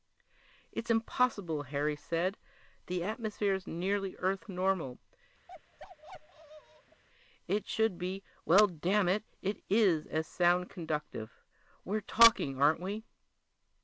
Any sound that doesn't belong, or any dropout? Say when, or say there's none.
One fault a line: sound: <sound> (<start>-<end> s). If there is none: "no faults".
sound: bark (5.5-7.0 s)